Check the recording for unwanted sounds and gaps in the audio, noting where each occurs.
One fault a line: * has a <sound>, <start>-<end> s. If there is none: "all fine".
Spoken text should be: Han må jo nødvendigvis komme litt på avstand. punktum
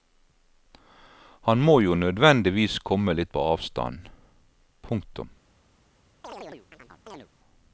* has a chirp, 6.2-7.3 s